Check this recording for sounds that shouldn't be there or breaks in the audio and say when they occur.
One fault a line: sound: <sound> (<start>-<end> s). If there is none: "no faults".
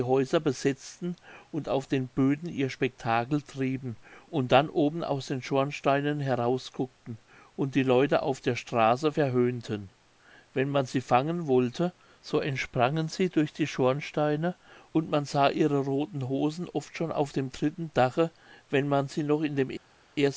no faults